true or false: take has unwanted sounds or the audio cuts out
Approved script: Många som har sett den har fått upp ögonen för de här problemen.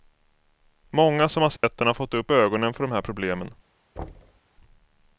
true